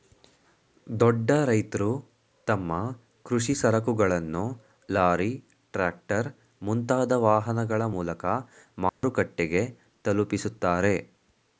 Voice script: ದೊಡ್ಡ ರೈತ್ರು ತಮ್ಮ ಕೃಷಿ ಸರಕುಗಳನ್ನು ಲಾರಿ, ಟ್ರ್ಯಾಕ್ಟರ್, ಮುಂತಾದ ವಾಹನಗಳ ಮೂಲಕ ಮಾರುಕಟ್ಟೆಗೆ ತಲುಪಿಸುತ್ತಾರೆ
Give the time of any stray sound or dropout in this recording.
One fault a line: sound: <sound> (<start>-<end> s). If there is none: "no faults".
sound: dropout (8.9-9.0 s)